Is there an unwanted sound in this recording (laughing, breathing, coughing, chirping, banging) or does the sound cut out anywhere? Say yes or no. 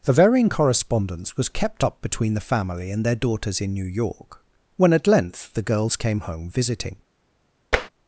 yes